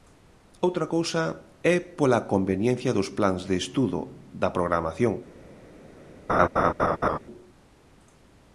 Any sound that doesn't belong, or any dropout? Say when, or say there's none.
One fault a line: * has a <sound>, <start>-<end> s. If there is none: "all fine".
* has a laugh, 6.3-7.2 s